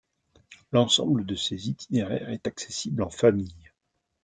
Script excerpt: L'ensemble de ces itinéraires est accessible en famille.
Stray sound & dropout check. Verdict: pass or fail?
pass